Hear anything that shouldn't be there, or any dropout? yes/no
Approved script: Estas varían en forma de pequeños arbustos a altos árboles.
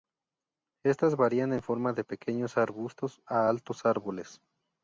no